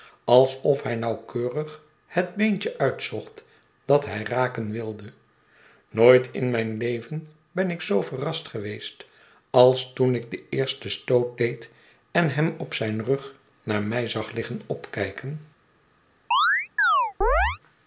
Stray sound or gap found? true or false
true